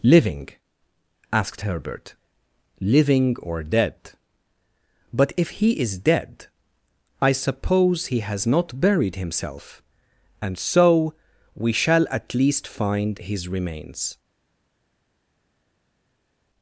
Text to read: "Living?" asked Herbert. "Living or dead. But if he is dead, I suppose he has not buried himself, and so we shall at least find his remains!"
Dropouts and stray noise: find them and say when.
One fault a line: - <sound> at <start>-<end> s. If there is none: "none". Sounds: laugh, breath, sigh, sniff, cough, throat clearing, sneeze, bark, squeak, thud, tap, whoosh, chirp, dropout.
none